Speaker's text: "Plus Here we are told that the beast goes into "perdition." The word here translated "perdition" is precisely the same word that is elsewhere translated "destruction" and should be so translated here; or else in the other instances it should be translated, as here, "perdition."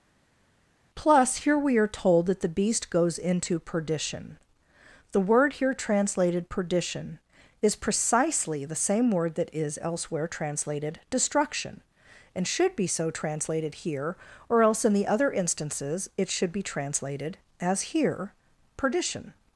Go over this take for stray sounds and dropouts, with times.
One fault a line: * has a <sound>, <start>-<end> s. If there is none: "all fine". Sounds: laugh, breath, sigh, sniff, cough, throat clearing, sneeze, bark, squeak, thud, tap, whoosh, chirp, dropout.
all fine